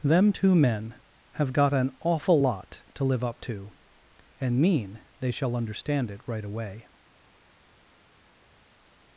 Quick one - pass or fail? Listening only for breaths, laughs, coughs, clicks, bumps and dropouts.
pass